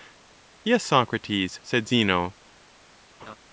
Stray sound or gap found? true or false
true